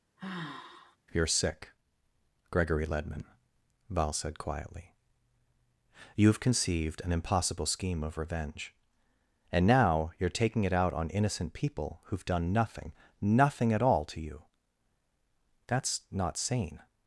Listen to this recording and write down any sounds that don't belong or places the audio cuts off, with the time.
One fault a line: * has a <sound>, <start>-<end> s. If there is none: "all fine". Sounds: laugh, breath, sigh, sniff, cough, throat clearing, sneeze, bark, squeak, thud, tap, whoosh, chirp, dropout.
* has a sigh, 0.2-1.0 s